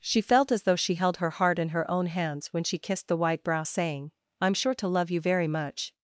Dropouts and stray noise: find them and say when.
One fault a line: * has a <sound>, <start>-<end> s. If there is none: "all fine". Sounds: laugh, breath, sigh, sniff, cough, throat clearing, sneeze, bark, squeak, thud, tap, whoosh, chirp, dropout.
all fine